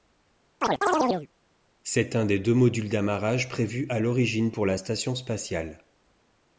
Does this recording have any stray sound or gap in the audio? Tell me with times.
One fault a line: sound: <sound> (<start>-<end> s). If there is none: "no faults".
sound: chirp (0.6-1.3 s)